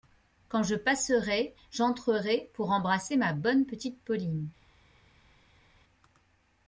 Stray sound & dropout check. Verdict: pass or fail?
pass